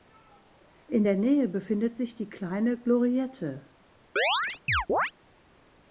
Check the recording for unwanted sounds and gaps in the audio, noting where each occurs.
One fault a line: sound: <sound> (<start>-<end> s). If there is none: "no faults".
sound: chirp (4.2-5.1 s)